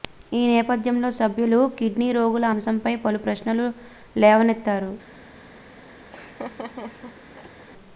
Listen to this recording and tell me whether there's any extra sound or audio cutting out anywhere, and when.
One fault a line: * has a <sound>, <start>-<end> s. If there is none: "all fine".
* has a laugh, 6.1-7.7 s